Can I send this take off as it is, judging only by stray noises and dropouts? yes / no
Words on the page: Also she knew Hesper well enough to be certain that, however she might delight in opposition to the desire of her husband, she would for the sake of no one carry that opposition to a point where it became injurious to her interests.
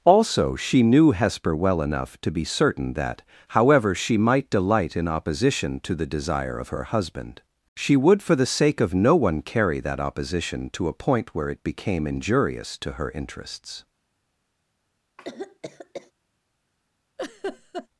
no